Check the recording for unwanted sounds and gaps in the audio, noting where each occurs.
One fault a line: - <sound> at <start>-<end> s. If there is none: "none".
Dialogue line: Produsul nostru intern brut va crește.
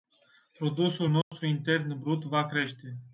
- dropout at 1.2-1.3 s